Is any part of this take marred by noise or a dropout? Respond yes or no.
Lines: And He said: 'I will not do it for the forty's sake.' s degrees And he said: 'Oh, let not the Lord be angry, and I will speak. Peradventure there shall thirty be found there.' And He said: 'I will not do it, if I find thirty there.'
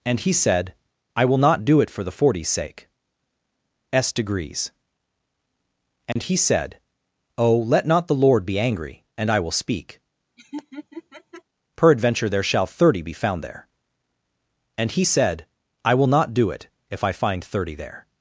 yes